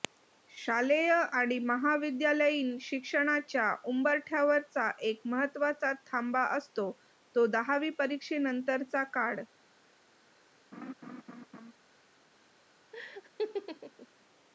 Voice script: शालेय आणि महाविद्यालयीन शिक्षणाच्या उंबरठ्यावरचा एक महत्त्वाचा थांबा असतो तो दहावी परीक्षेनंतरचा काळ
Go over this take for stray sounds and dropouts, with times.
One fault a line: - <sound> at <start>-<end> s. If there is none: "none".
- laugh at 10.7-11.7 s
- laugh at 12.9-14.1 s